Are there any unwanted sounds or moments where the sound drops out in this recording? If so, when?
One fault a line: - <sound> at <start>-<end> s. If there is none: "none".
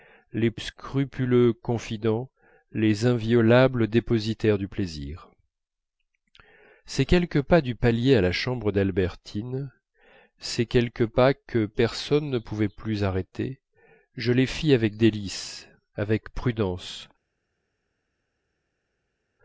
none